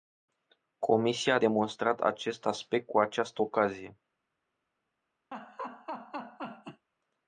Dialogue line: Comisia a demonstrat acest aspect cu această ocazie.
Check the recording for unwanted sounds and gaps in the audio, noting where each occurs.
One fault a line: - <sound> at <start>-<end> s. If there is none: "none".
- laugh at 5.3-6.9 s